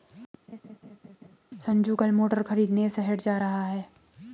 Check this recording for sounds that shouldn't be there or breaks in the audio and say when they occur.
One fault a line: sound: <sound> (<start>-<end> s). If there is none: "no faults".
sound: laugh (0.5-1.4 s)